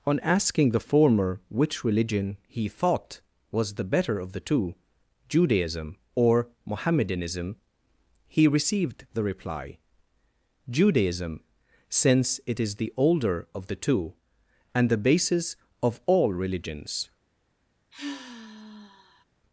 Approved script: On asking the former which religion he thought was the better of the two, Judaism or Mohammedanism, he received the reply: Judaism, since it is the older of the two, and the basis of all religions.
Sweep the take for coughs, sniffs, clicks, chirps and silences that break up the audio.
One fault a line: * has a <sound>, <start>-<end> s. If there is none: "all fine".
* has a sigh, 17.9-19.3 s